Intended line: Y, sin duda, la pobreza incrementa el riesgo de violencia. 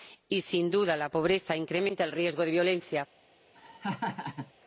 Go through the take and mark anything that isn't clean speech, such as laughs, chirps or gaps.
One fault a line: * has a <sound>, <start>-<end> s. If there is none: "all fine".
* has a laugh, 3.5-4.5 s